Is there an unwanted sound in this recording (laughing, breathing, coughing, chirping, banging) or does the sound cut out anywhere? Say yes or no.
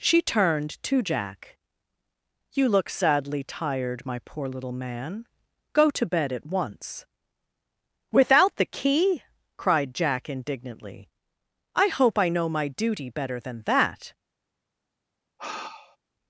yes